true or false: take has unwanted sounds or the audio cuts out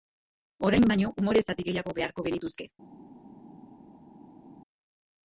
false